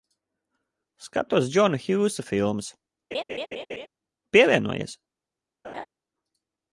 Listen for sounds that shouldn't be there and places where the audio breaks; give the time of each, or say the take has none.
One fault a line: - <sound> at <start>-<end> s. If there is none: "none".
- laugh at 3.1-3.9 s
- laugh at 5.6-5.9 s